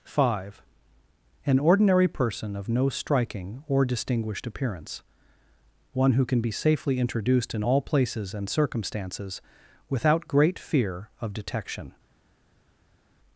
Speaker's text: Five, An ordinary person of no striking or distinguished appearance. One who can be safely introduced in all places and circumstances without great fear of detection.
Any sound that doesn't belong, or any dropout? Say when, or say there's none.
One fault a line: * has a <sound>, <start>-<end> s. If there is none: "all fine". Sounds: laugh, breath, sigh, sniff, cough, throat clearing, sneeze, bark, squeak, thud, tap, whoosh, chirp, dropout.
all fine